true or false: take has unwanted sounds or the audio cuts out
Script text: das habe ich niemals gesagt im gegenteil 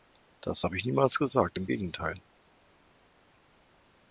false